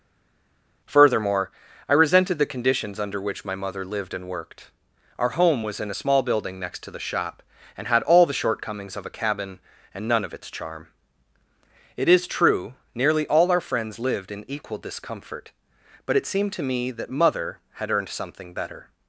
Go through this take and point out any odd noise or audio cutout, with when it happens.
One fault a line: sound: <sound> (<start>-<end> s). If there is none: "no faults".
no faults